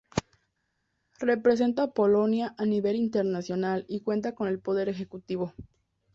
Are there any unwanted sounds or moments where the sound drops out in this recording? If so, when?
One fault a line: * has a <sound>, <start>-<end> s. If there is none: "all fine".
all fine